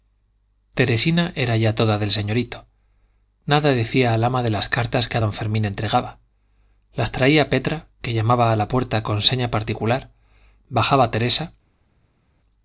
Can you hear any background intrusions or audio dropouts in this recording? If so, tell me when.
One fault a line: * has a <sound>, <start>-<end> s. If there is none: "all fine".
all fine